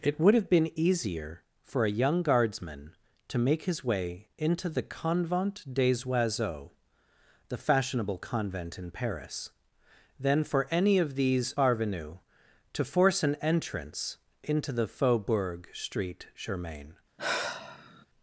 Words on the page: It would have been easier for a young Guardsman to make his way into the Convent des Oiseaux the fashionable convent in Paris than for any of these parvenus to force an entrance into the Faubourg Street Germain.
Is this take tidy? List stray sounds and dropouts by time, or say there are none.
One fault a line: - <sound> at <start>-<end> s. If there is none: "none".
- sigh at 17.2-18.1 s